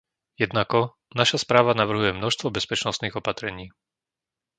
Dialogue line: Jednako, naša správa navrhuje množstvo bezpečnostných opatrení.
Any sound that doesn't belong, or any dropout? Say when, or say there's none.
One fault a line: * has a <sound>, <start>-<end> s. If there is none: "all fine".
all fine